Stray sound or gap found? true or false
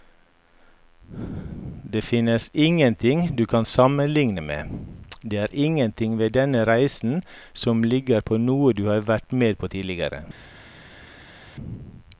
false